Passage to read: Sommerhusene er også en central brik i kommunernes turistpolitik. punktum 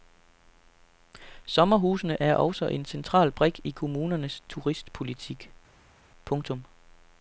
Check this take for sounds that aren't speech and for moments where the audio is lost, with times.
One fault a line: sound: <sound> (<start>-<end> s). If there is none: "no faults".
no faults